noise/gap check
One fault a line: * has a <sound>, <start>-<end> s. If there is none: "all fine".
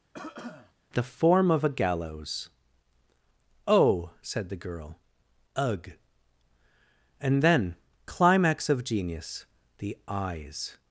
* has a cough, 0.1-0.7 s